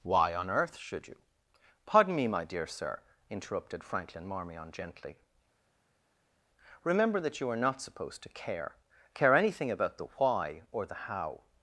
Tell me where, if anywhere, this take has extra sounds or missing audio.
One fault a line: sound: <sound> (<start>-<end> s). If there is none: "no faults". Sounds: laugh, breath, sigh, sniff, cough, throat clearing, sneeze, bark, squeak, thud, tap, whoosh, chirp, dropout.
no faults